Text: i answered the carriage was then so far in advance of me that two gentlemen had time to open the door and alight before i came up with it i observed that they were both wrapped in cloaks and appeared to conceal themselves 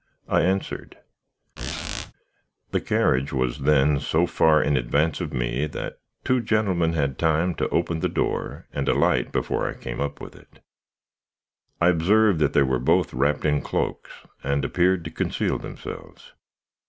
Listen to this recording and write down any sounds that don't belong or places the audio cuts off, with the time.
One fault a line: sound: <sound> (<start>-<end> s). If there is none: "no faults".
sound: squeak (1.6-2.1 s)